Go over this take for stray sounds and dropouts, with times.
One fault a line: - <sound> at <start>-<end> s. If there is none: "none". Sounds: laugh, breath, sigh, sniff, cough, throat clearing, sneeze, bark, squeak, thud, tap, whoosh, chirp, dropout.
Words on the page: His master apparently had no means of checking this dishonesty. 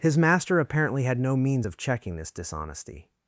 none